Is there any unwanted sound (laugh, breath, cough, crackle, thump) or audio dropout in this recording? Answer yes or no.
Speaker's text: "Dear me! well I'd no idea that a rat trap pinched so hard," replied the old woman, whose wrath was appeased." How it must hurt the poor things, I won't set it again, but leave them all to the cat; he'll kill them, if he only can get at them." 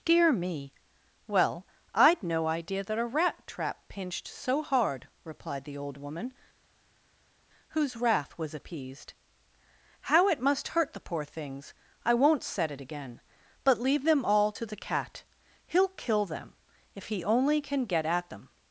no